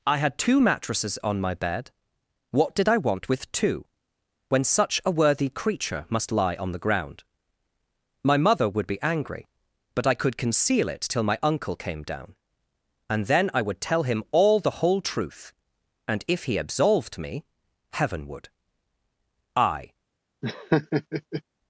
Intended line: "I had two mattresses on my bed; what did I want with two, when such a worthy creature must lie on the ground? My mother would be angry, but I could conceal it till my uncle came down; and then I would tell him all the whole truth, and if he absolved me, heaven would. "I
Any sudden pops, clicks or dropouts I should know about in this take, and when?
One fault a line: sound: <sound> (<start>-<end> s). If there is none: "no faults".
sound: laugh (20.4-21.4 s)